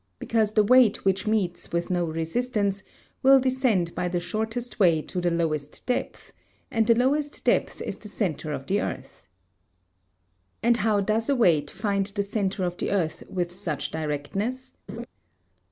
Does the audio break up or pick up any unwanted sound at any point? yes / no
yes